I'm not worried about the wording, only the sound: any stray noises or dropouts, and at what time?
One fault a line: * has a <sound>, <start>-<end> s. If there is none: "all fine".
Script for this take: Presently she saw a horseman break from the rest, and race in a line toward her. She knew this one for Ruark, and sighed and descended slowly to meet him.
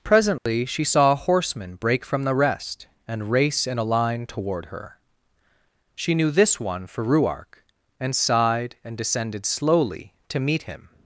* has a dropout, 0.4-0.5 s